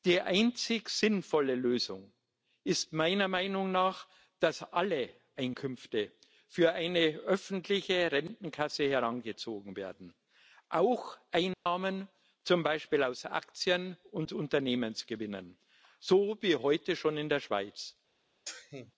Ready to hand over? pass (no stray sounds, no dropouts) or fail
fail